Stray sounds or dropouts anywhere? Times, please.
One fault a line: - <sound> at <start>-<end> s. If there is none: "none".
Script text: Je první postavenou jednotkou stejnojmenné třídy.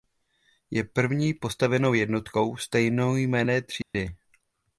- dropout at 3.8-3.9 s